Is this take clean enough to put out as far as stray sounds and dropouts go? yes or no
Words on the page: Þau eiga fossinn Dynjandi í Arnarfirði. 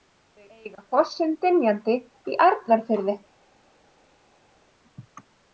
yes